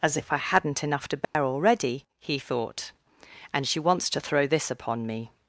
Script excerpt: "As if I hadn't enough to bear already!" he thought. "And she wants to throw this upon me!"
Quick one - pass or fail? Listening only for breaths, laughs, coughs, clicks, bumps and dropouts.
fail